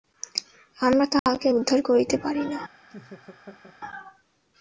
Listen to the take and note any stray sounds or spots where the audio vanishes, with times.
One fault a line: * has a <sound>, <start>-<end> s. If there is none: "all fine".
* has a dropout, 1.2-1.3 s
* has a laugh, 2.9-3.8 s